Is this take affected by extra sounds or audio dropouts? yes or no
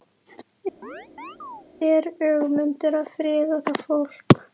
yes